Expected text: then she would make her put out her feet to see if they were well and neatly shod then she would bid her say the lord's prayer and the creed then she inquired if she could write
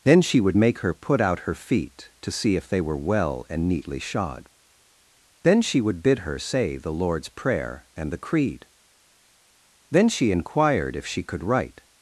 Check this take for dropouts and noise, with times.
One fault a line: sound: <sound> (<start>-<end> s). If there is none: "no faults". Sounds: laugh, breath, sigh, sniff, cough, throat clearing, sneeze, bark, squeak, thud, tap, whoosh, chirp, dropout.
no faults